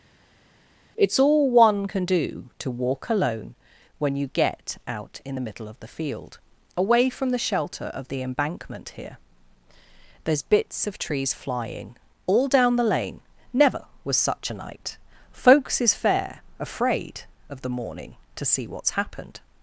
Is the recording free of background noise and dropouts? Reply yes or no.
yes